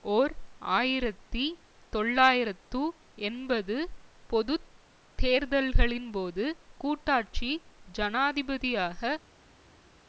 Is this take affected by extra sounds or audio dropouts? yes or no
no